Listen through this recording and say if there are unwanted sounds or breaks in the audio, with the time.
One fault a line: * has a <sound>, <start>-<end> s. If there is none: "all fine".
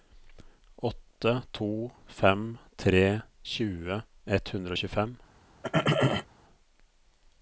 * has a throat clearing, 5.6-6.3 s